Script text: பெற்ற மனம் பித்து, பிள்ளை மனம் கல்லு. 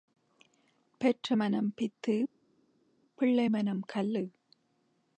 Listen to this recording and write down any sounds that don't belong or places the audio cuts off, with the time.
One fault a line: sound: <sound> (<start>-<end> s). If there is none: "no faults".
no faults